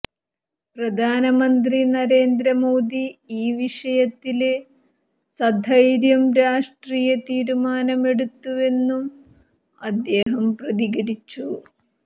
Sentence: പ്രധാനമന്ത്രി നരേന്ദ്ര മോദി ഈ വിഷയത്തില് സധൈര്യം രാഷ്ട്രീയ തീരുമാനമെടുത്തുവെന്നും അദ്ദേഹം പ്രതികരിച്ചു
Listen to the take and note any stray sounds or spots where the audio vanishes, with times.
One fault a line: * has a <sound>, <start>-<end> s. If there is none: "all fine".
* has a dropout, 10.2-10.3 s